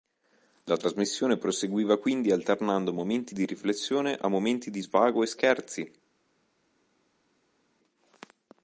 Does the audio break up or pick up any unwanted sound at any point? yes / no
no